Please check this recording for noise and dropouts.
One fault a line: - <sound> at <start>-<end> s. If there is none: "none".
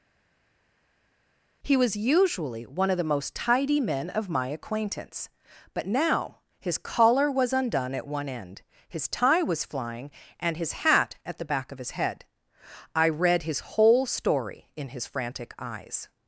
none